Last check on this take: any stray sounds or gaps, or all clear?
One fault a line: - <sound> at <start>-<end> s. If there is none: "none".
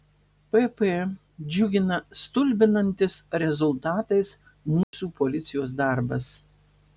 - dropout at 4.8-4.9 s